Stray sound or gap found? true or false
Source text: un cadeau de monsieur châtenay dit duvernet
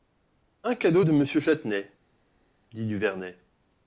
false